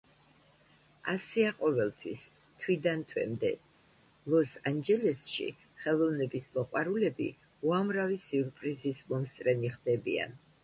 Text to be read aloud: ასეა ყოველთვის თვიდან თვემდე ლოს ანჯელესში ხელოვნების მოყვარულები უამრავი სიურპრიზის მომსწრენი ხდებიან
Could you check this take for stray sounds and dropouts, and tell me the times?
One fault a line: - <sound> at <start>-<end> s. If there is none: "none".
none